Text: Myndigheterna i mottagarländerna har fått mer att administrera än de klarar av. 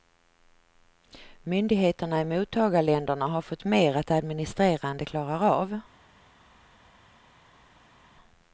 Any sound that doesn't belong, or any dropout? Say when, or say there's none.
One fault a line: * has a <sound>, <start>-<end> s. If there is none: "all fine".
all fine